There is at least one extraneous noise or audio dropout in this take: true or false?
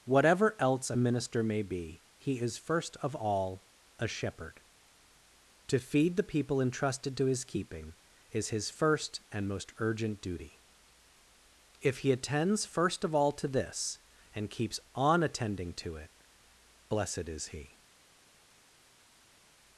false